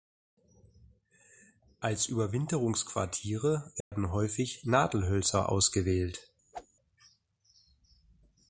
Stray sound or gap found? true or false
true